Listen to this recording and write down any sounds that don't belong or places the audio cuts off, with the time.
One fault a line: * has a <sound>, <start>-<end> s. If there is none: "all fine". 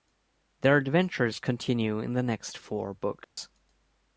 * has a dropout, 3.2-3.4 s